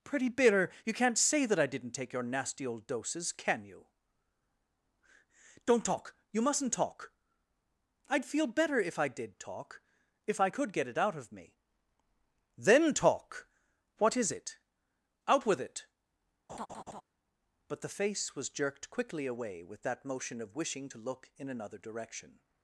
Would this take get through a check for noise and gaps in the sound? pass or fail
fail